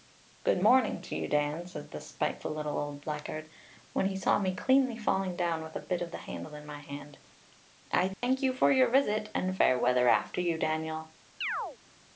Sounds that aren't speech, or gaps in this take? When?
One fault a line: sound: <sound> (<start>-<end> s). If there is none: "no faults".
sound: dropout (8.1-8.2 s)
sound: chirp (11.4-11.8 s)